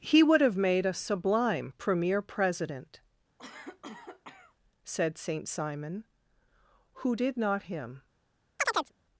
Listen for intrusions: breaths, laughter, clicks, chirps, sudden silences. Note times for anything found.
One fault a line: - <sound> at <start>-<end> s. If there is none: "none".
- cough at 3.4-4.6 s
- chirp at 8.6-8.9 s